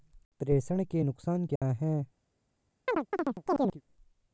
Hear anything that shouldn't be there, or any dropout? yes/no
yes